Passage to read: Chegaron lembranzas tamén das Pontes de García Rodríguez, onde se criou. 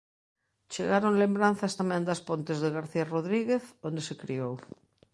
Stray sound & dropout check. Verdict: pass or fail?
pass